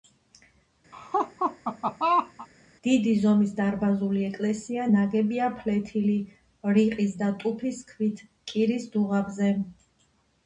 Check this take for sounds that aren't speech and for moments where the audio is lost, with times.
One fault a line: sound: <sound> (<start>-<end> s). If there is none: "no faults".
sound: laugh (0.9-2.5 s)